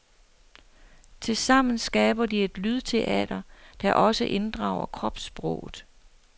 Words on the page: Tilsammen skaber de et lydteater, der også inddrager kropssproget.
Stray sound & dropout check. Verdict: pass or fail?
pass